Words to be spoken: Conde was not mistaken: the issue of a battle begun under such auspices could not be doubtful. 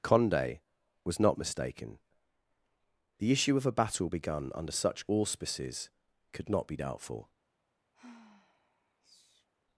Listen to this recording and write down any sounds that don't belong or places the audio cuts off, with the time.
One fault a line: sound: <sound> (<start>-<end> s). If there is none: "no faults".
sound: sigh (7.9-9.5 s)